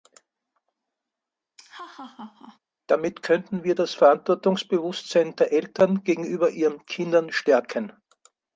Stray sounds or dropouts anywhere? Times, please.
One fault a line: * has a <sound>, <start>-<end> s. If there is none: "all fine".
* has a laugh, 1.6-2.6 s